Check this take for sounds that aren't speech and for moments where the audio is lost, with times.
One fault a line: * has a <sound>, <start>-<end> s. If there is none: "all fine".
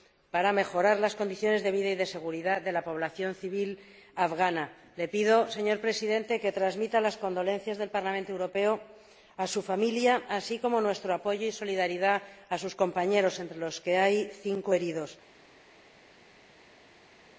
all fine